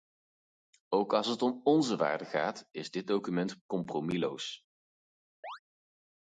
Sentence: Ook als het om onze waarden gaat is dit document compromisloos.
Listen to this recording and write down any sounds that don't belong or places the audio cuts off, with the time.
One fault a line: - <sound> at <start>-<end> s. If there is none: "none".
- chirp at 5.4-5.6 s